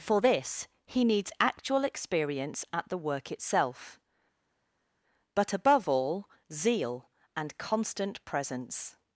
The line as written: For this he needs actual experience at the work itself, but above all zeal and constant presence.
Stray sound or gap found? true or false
false